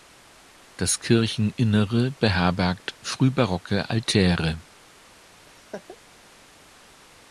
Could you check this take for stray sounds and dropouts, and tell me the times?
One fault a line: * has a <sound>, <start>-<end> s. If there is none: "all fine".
* has a laugh, 5.5-6.0 s